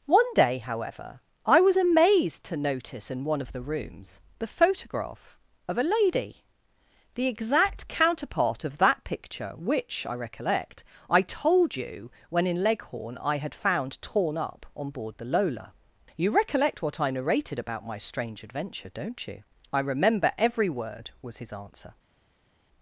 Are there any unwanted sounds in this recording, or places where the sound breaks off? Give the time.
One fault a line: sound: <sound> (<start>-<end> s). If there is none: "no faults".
no faults